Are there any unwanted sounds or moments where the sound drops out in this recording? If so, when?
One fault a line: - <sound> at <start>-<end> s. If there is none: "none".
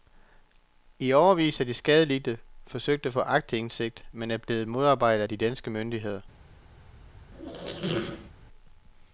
- squeak at 7.3-8.3 s